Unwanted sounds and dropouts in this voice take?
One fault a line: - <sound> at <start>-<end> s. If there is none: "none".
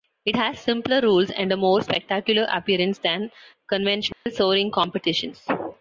- dropout at 4.1-4.3 s